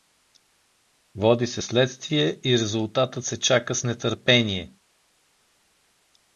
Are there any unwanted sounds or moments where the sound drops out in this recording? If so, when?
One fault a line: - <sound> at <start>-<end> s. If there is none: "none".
none